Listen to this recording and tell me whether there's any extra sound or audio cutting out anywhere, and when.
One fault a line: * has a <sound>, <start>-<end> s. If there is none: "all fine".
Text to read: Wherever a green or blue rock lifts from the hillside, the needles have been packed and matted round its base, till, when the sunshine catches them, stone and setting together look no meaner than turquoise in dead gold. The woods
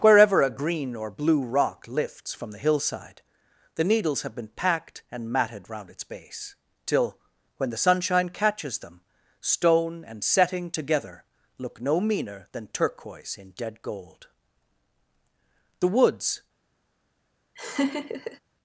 * has a laugh, 17.5-18.4 s